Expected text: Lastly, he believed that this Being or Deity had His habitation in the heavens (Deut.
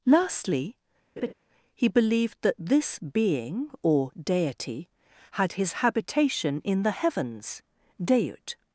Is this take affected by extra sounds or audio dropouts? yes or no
yes